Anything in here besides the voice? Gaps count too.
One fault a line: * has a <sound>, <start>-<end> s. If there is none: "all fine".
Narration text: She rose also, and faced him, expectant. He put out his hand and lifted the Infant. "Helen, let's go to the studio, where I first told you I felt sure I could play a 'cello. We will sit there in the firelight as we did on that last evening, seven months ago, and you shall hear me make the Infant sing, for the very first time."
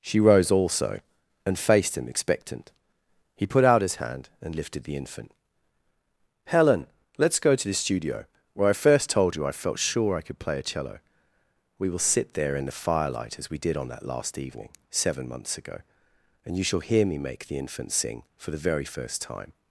all fine